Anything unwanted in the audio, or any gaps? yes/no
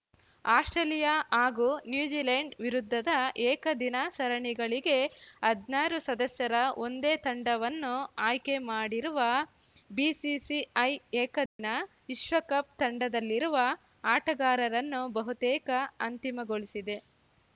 yes